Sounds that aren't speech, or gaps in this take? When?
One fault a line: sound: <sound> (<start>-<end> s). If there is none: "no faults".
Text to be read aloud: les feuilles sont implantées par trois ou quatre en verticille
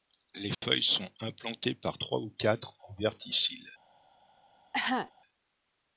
sound: dropout (0.5-0.6 s)
sound: cough (4.7-5.1 s)